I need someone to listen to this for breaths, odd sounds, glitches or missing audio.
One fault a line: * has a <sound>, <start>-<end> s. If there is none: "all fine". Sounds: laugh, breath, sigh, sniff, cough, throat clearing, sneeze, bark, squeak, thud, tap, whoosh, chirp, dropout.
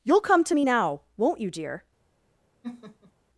* has a laugh, 2.6-3.1 s